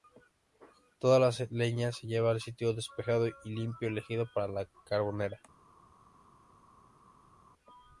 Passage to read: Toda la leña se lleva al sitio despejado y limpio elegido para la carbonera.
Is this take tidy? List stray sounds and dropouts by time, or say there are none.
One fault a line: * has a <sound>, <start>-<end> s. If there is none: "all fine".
all fine